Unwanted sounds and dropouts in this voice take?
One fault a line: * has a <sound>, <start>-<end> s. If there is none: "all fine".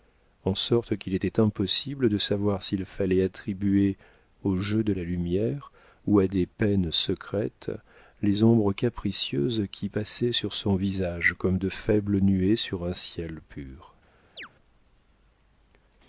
* has a chirp, 14.4-14.5 s